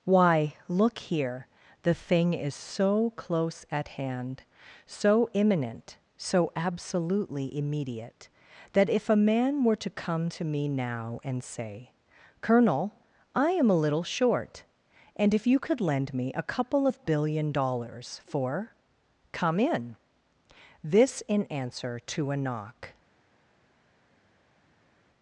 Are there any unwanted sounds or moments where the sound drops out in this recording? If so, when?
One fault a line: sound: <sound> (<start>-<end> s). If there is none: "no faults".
no faults